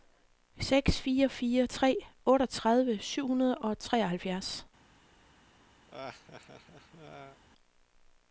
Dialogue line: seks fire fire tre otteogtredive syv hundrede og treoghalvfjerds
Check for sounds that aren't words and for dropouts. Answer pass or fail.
fail